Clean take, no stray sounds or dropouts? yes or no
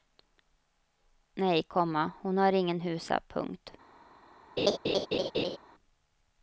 no